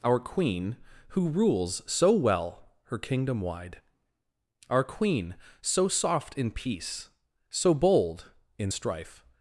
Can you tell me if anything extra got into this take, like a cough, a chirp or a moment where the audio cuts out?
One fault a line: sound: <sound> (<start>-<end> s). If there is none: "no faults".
no faults